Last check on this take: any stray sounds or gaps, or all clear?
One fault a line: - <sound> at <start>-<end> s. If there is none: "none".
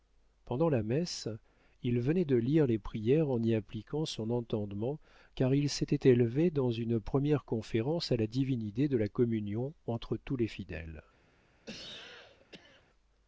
- cough at 11.7-12.8 s